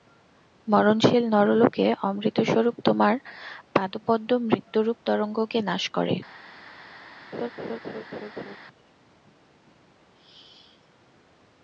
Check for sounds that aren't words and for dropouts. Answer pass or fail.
fail